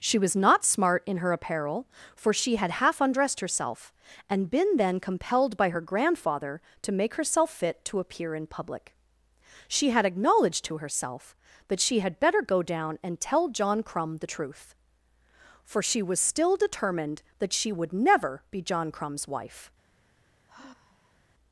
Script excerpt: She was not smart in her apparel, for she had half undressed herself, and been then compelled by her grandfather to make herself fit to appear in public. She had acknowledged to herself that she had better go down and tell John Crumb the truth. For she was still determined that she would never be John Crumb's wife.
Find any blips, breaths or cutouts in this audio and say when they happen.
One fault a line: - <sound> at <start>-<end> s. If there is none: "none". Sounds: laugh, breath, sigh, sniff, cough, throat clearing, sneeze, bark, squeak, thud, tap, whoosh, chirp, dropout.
- sigh at 20.5-21.2 s